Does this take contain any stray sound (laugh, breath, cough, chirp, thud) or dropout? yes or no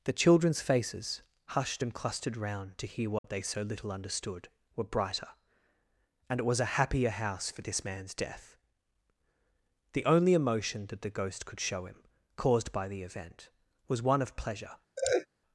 yes